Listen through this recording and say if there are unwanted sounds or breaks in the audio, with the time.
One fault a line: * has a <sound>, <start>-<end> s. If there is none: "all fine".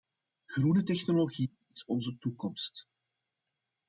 all fine